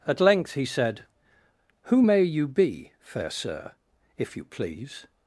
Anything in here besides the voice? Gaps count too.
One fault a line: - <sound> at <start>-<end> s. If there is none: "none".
none